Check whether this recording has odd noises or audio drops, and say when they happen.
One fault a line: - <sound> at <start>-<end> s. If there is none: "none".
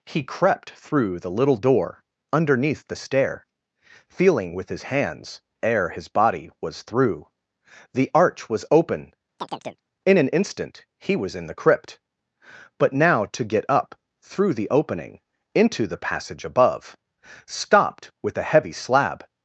- chirp at 9.4-9.8 s